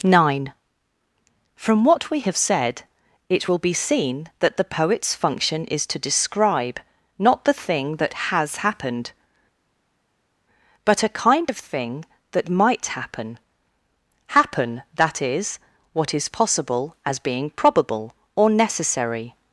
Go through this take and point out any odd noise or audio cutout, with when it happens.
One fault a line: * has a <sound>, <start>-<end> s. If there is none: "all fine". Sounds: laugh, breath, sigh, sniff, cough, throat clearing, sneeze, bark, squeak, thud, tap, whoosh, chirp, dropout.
all fine